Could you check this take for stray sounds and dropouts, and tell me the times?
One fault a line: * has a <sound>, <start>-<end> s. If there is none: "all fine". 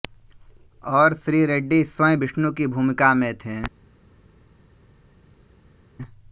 all fine